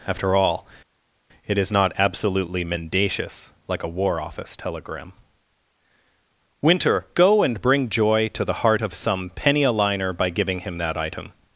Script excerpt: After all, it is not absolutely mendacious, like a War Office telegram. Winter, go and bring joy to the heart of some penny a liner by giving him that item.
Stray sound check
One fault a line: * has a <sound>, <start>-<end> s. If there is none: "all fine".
all fine